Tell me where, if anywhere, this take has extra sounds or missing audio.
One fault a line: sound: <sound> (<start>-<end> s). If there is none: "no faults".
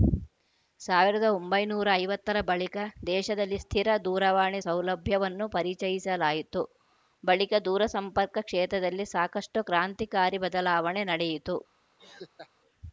sound: laugh (12.0-12.5 s)